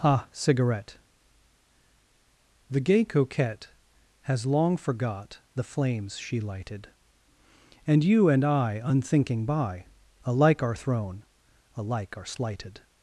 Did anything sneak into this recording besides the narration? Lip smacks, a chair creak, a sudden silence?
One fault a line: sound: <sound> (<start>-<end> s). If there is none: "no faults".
no faults